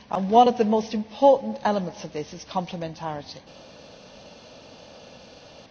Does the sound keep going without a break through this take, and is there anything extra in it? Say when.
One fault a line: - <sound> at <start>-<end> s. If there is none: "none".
none